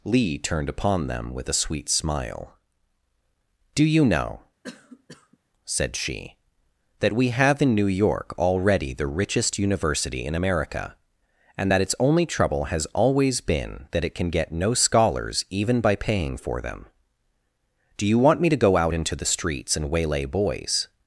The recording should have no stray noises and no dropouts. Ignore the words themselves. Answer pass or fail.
fail